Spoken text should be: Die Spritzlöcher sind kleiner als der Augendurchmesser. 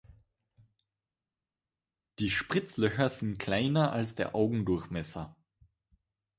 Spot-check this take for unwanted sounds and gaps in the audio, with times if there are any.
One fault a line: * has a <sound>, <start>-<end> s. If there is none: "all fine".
all fine